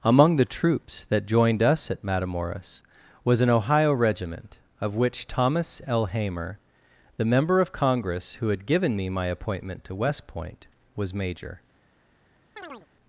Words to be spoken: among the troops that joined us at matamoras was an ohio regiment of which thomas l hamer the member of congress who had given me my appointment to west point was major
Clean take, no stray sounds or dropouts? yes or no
no